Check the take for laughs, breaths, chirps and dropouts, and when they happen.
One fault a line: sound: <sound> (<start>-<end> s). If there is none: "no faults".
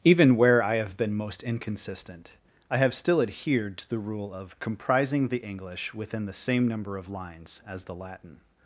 no faults